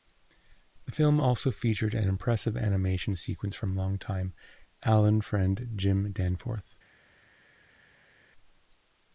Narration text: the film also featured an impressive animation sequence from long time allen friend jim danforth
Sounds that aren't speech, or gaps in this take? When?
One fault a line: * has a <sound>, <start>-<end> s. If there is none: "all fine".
all fine